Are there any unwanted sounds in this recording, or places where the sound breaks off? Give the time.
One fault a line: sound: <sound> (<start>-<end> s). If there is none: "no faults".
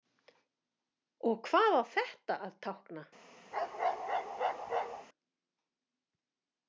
sound: bark (3.5-5.1 s)